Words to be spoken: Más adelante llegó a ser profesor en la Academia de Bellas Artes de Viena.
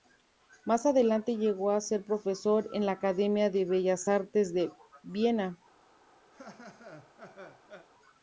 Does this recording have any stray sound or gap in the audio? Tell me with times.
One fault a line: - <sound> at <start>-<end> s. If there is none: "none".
- laugh at 6.3-7.9 s